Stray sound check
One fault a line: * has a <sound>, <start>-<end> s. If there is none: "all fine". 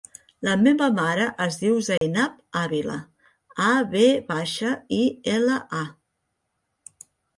* has a dropout, 2.0-2.0 s